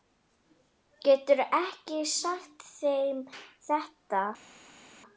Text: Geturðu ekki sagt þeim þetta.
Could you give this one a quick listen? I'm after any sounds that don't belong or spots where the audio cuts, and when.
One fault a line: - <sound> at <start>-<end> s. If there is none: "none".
none